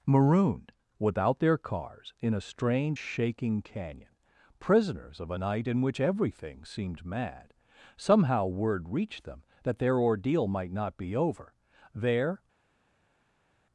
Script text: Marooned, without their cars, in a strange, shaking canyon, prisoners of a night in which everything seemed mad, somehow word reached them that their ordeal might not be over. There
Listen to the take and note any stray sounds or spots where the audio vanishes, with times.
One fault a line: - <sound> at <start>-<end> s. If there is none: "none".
none